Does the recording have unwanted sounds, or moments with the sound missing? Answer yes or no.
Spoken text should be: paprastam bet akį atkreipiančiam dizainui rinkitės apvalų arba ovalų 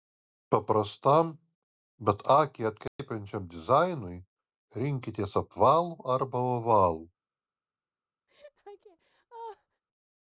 yes